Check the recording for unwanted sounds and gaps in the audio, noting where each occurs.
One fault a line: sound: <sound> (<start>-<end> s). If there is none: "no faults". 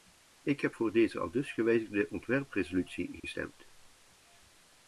sound: dropout (3.2-3.2 s)